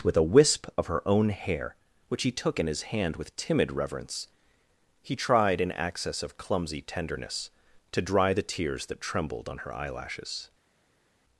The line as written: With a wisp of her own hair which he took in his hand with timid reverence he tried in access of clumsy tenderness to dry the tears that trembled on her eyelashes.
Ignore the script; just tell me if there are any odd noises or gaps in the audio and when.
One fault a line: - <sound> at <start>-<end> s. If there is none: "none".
none